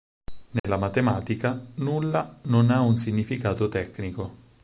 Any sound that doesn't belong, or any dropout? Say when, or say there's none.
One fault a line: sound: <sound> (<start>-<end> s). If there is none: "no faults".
sound: dropout (0.6-0.6 s)